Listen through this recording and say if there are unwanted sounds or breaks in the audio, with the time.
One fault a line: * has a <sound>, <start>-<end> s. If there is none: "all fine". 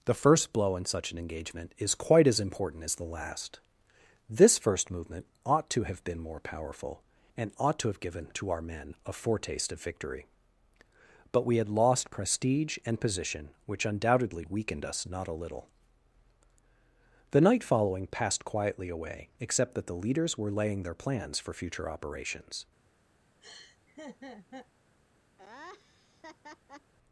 * has a laugh, 23.4-24.7 s
* has a laugh, 25.4-26.9 s